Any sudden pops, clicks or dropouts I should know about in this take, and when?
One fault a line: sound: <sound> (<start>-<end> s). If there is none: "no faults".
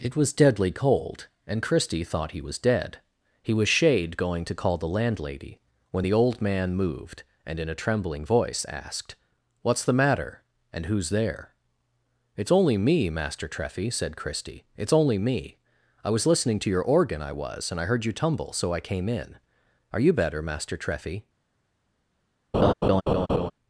sound: laugh (22.5-23.5 s)